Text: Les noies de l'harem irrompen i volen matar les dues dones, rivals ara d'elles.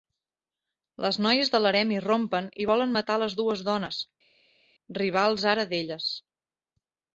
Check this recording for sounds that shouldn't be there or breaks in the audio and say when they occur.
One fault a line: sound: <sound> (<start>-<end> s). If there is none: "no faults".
no faults